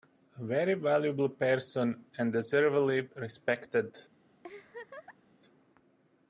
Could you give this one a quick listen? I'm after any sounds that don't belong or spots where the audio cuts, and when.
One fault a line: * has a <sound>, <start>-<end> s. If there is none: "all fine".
* has a laugh, 4.4-5.4 s